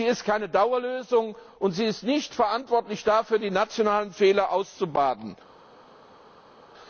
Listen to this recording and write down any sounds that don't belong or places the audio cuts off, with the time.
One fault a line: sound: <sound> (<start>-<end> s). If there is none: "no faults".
no faults